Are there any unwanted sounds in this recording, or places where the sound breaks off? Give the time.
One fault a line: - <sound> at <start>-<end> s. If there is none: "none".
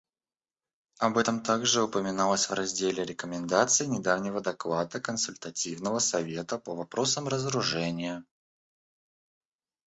none